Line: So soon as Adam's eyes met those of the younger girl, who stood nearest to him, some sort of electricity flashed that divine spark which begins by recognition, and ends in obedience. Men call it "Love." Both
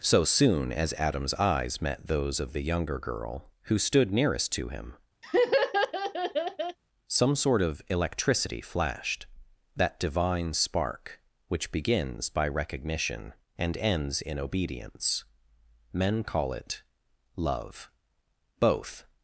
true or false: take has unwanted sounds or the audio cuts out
true